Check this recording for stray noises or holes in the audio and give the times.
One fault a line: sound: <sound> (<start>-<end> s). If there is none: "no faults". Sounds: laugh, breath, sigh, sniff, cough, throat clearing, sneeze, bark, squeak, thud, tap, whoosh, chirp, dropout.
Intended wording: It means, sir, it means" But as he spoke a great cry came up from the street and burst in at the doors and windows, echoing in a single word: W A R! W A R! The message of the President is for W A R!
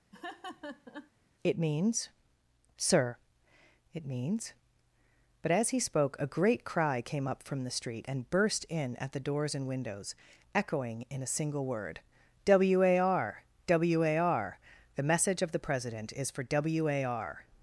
sound: laugh (0.1-1.1 s)